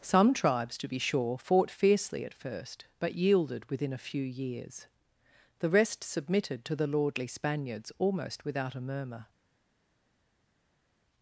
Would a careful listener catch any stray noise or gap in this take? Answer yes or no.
no